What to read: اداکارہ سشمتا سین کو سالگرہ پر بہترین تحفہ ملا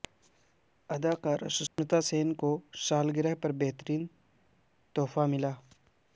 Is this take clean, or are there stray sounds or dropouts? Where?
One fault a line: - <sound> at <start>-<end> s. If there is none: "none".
- dropout at 1.7-1.8 s